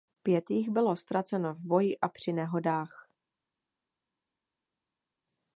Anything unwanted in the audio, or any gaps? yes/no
no